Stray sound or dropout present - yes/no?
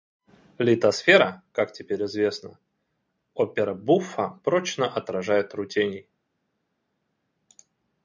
no